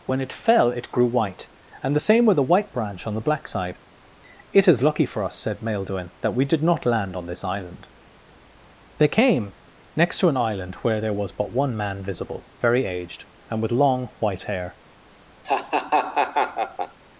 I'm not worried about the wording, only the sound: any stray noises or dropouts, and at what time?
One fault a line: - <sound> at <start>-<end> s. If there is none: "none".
- laugh at 15.4-17.0 s